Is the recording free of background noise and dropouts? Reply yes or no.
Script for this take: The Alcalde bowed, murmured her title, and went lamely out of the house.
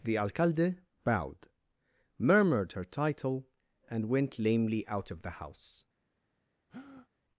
no